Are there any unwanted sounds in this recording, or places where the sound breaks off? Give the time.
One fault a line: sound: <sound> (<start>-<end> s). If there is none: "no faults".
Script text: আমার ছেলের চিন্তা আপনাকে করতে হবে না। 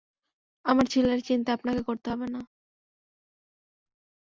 no faults